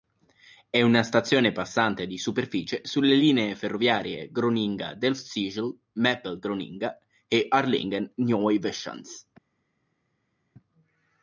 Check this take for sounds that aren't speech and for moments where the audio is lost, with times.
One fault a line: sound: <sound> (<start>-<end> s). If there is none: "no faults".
no faults